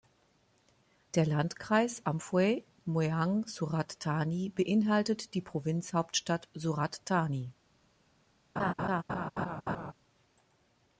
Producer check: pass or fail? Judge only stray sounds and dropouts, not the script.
fail